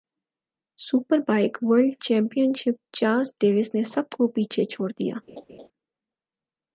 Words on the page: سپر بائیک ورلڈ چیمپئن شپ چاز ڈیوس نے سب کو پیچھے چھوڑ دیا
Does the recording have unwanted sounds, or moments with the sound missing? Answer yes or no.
yes